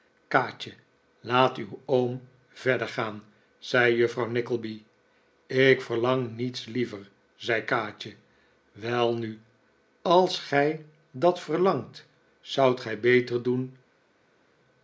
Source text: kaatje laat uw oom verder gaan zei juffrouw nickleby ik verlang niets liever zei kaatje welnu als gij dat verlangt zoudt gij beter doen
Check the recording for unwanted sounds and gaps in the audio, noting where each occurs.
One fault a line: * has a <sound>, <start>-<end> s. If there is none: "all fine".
all fine